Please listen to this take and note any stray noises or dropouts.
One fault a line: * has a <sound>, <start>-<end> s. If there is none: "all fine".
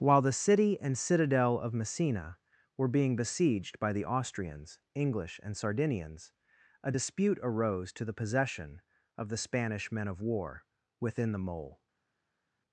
all fine